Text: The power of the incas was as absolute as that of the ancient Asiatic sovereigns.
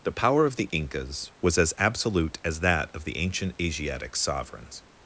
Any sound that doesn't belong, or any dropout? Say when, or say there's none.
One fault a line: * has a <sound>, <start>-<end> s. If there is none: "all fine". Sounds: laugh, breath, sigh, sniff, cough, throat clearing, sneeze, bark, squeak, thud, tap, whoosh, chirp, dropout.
all fine